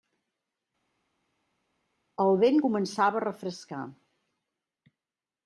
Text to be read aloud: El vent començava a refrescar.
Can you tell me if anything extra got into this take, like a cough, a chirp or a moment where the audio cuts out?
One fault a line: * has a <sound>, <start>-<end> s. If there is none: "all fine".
all fine